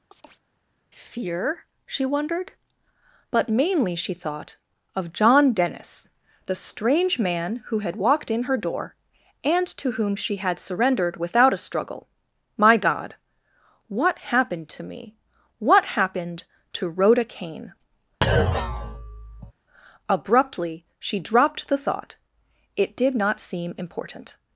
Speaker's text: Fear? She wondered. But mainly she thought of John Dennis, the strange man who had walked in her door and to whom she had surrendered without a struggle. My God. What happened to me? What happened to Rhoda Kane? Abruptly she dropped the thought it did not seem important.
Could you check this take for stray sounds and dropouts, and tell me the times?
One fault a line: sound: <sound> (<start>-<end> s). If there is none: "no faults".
sound: chirp (0.1-0.4 s)
sound: thud (18.2-19.5 s)